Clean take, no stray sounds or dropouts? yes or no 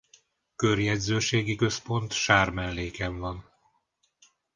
yes